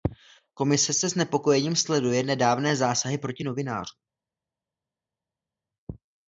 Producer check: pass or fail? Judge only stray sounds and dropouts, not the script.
pass